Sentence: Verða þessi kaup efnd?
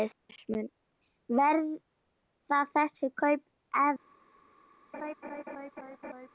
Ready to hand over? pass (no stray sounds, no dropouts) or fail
fail